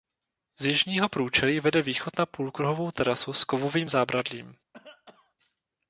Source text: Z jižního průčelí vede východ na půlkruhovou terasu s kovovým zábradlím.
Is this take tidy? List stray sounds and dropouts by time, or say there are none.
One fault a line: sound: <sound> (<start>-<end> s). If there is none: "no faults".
sound: cough (4.7-5.3 s)